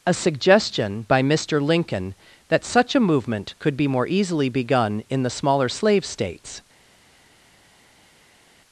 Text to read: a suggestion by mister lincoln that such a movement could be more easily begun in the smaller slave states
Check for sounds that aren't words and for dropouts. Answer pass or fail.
pass